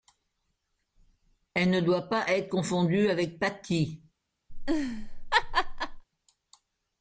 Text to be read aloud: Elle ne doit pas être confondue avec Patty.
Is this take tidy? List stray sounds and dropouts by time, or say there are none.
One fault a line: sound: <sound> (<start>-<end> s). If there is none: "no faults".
sound: laugh (4.5-6.0 s)